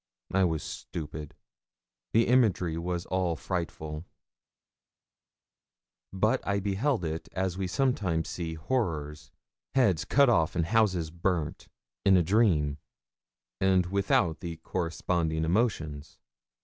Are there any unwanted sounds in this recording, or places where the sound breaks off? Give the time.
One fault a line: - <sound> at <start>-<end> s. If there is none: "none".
none